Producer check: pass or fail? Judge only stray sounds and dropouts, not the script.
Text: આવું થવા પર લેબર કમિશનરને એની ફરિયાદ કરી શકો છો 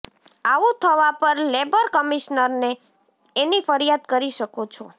pass